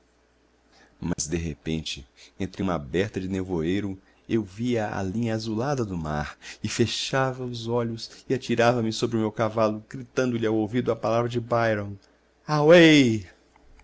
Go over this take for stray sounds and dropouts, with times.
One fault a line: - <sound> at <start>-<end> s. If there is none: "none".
- dropout at 1.1-1.2 s